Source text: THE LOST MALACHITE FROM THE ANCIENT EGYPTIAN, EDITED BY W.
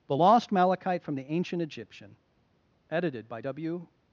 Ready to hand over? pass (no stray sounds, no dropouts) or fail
pass